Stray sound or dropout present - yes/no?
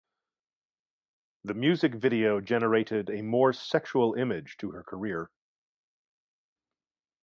no